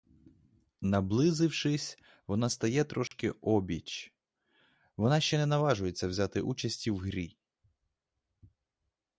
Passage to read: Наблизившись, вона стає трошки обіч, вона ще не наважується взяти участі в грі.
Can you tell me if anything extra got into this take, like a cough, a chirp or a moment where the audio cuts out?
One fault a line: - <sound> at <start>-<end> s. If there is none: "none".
- dropout at 3.1-3.1 s